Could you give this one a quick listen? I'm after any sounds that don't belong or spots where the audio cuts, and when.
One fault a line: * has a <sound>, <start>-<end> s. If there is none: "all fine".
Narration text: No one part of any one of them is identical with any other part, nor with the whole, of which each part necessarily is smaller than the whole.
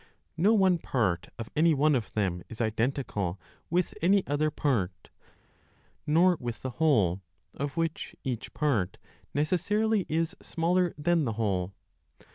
all fine